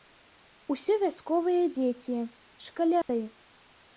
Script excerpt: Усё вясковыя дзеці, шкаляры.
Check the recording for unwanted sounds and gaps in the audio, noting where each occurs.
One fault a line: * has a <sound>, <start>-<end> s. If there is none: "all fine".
* has a dropout, 3.0-3.1 s